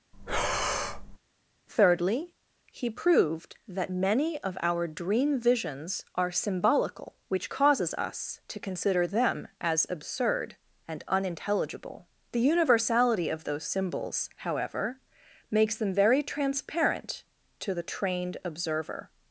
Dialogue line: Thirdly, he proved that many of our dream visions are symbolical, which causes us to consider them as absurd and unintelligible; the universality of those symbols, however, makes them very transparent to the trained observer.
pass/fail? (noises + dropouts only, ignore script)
fail